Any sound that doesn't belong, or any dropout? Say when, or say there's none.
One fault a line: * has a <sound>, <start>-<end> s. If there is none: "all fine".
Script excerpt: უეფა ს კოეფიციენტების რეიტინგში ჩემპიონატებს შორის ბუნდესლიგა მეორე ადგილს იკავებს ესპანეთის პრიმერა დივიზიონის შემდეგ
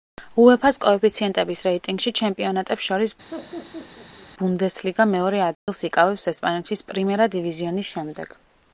* has a laugh, 3.3-4.3 s
* has a dropout, 5.5-5.7 s